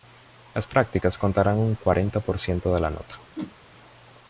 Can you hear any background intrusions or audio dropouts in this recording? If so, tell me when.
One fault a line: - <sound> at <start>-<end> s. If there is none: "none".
- whoosh at 3.3-3.6 s